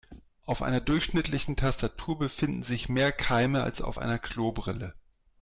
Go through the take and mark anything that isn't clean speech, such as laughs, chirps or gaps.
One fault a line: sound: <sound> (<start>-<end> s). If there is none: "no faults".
no faults